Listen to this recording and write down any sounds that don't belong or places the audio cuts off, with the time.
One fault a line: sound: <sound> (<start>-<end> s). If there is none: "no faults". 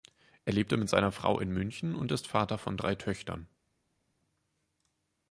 no faults